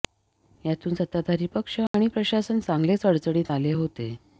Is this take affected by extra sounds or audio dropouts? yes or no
yes